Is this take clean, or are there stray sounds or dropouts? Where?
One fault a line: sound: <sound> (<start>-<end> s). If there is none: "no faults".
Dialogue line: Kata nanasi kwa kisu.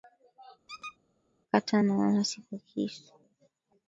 sound: squeak (0.7-1.0 s)